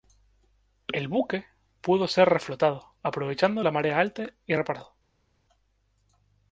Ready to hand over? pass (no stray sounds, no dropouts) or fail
pass